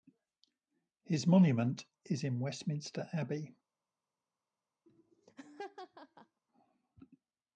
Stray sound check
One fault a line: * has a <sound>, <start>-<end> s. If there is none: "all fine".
* has a laugh, 4.9-6.4 s